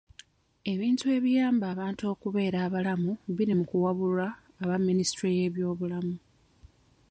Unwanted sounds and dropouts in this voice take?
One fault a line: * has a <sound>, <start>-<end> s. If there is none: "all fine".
all fine